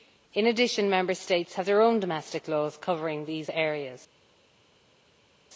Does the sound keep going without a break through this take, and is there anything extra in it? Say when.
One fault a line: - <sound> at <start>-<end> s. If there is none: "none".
none